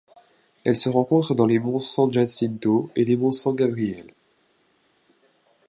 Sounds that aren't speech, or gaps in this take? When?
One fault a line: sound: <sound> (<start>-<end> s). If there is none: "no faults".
no faults